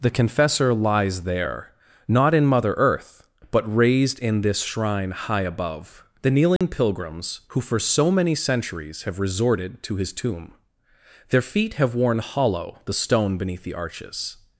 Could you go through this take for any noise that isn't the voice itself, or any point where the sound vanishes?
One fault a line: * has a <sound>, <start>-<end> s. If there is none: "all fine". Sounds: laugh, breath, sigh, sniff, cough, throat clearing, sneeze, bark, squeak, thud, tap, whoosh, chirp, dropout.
* has a dropout, 6.6-6.6 s